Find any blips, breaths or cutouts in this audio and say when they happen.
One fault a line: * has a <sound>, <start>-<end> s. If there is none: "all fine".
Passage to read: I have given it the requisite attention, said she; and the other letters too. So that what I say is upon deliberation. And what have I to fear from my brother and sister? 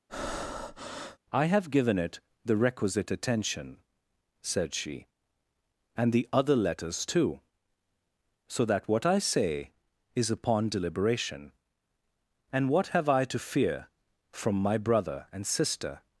* has a breath, 0.1-1.2 s